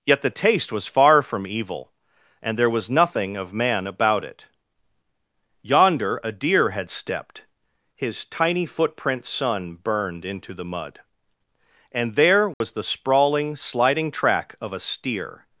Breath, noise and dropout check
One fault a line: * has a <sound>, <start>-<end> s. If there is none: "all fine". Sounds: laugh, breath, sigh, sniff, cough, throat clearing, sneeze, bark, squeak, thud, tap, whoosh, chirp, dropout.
* has a dropout, 12.5-12.6 s